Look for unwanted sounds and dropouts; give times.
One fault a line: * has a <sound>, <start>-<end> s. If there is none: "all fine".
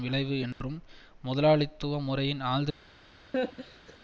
* has a dropout, 0.5-0.6 s
* has a laugh, 3.3-4.0 s